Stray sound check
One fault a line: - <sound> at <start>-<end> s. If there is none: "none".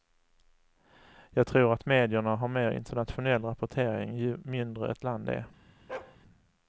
- bark at 5.9-6.2 s